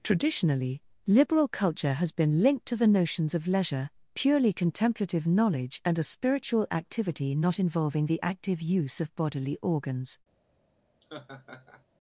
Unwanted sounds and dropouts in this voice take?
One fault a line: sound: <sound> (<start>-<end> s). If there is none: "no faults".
sound: laugh (11.0-11.8 s)